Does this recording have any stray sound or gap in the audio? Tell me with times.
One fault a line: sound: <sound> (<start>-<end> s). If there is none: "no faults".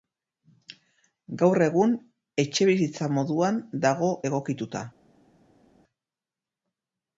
no faults